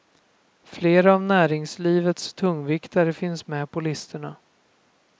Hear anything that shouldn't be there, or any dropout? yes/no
no